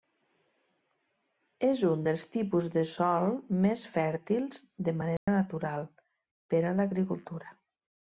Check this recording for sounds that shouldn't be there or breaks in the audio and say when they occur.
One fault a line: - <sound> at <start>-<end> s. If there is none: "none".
- dropout at 5.2-5.3 s